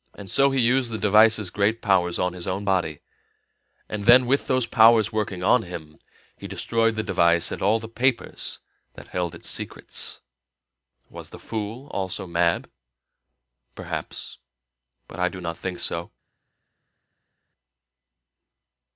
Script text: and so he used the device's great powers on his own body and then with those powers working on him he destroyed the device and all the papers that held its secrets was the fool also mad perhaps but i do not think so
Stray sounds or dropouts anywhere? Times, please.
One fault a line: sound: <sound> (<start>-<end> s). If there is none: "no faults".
no faults